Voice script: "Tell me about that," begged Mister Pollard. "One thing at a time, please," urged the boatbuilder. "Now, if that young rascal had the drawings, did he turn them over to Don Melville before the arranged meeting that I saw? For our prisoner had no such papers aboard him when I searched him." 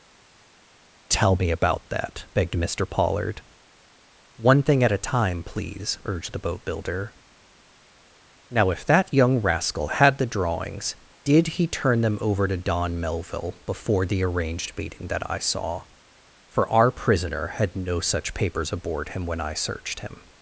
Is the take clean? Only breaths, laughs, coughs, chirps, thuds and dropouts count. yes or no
yes